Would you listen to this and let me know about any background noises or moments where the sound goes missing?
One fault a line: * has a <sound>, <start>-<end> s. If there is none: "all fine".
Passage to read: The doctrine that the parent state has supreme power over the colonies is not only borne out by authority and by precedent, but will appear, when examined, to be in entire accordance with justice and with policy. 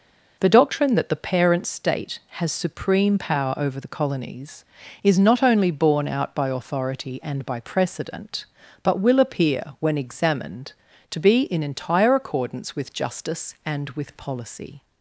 all fine